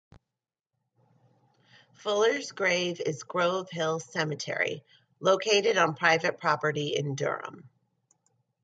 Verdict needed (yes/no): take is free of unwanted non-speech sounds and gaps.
yes